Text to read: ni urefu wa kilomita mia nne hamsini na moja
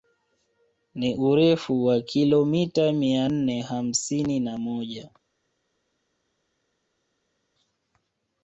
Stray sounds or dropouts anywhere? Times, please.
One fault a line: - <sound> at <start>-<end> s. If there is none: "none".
none